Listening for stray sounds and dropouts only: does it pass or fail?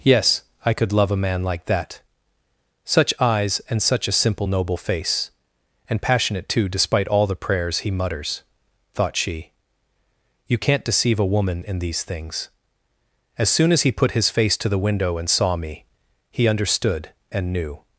pass